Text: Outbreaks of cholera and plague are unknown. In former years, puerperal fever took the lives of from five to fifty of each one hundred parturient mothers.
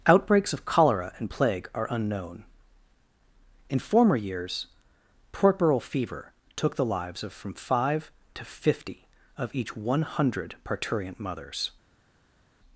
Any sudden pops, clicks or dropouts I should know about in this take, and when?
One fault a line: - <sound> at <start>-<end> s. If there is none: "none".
none